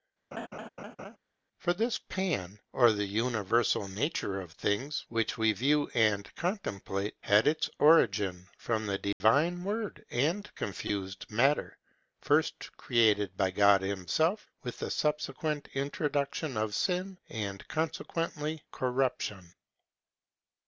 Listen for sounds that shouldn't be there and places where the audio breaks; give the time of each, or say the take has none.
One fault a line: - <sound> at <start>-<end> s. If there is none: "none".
- laugh at 0.3-1.2 s
- dropout at 9.1-9.2 s